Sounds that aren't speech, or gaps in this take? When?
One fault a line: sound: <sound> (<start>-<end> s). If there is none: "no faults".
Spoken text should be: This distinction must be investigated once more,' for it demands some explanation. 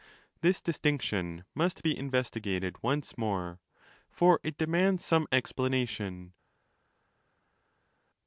no faults